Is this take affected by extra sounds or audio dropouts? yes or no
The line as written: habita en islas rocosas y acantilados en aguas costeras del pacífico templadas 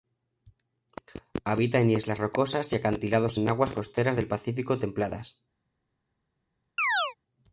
yes